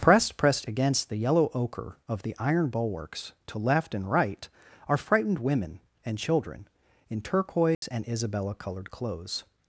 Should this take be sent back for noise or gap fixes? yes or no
yes